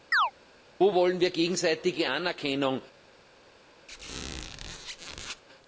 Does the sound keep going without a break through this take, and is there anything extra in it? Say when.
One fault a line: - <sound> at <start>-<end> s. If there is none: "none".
- chirp at 0.1-0.3 s
- squeak at 3.9-5.4 s